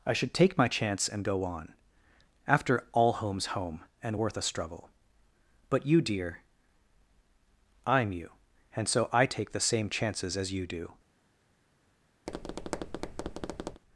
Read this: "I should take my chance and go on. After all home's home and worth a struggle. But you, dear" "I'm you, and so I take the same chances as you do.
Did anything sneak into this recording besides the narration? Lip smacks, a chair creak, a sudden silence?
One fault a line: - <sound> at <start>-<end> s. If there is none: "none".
- tap at 12.3-13.8 s